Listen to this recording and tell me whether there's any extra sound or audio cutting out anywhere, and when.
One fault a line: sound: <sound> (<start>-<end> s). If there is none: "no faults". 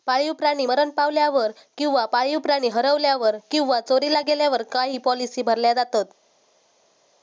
no faults